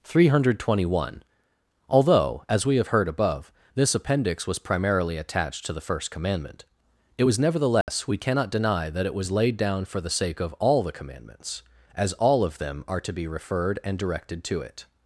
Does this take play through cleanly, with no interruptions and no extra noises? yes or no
no